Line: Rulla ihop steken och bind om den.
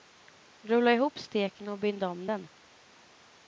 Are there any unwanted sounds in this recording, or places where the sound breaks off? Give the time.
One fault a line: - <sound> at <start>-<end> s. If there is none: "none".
none